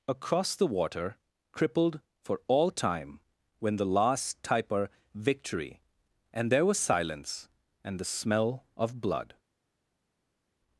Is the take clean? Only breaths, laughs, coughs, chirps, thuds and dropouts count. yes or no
yes